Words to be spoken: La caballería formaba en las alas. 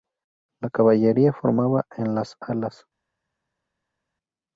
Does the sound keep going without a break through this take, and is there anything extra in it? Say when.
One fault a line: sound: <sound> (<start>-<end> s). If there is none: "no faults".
no faults